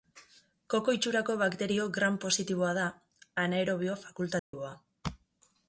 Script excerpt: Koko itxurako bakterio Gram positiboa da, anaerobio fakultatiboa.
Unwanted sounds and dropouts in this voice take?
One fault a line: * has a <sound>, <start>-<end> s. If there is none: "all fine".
* has a dropout, 4.4-4.5 s